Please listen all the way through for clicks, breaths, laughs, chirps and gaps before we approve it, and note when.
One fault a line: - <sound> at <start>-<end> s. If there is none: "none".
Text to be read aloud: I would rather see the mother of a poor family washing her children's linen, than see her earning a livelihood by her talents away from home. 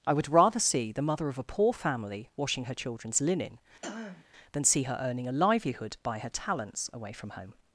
- throat clearing at 3.8-4.3 s